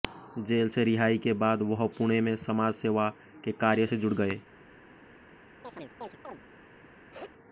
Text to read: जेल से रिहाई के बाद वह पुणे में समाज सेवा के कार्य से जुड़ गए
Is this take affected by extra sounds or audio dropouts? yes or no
yes